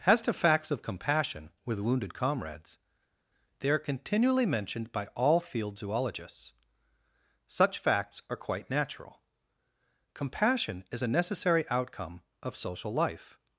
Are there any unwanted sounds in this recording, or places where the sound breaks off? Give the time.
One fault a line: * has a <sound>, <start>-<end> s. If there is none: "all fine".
all fine